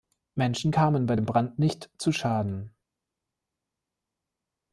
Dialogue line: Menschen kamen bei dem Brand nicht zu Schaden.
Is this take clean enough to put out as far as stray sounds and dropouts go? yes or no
yes